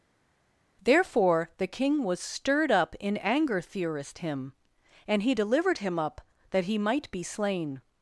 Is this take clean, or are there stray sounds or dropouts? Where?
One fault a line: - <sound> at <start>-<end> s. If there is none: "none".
none